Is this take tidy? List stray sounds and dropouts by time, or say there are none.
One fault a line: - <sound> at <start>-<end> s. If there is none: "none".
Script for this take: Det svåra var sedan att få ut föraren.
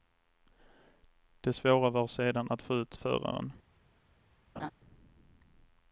- laugh at 4.6-4.7 s